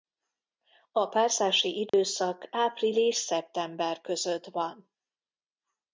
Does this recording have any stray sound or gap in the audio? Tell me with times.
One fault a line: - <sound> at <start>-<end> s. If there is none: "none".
- dropout at 1.9-1.9 s